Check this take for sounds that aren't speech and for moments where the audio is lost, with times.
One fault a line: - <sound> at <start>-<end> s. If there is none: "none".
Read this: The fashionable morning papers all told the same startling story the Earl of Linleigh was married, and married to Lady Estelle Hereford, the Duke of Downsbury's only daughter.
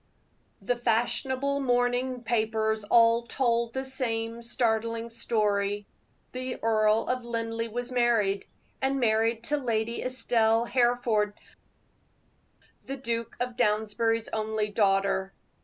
none